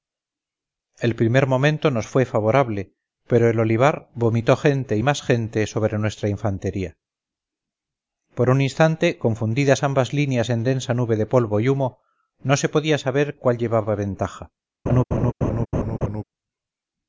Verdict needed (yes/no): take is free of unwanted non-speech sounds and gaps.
no